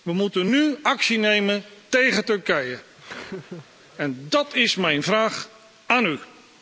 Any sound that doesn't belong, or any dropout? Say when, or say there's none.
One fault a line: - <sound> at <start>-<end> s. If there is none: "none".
- laugh at 3.0-3.7 s